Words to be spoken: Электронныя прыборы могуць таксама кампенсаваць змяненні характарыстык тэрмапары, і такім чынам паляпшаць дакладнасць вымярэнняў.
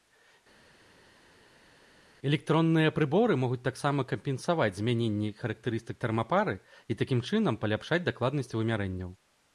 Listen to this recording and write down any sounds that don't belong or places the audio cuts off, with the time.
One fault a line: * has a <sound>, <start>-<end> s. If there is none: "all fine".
all fine